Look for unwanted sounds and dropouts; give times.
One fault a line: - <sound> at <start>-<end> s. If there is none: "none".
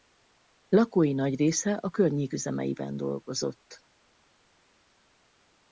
none